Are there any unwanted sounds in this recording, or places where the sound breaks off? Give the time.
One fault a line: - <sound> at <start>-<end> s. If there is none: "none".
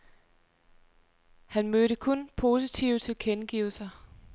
none